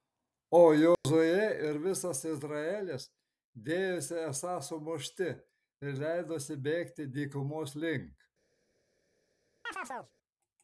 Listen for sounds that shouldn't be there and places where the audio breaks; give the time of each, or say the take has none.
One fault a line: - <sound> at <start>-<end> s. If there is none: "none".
- dropout at 0.9-1.0 s
- chirp at 9.7-10.1 s